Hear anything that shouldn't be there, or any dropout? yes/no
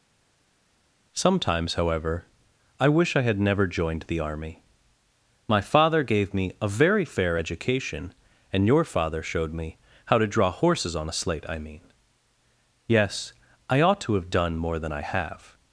no